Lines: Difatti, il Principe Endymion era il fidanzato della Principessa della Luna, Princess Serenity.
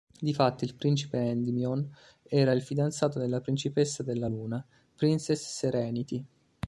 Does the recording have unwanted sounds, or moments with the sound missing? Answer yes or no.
no